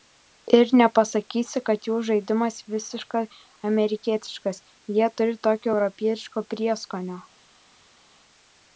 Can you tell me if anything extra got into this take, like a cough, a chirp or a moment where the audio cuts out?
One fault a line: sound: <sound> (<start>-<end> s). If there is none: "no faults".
no faults